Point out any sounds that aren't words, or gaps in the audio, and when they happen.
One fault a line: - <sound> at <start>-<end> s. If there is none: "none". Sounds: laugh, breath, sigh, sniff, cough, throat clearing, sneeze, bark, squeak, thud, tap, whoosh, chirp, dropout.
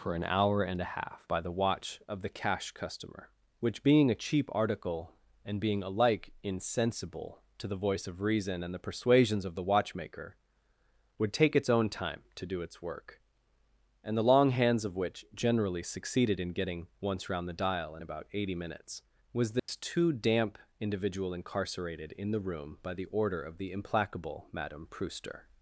- dropout at 19.6-19.7 s